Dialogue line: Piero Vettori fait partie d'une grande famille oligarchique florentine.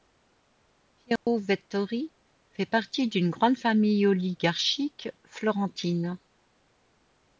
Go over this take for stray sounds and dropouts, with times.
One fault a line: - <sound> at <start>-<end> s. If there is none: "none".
- dropout at 1.2-1.3 s